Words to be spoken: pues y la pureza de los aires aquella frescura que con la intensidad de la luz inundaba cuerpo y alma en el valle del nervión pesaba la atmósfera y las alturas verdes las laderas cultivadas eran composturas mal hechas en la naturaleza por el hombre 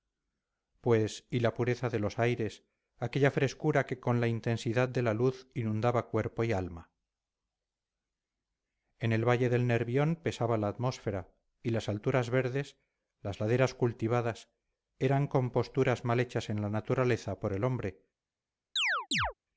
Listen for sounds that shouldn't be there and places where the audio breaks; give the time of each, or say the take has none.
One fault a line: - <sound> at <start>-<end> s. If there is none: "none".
- chirp at 18.8-19.3 s